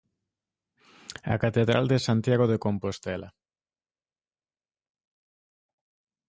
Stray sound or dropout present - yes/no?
no